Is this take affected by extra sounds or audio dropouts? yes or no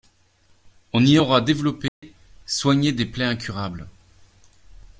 yes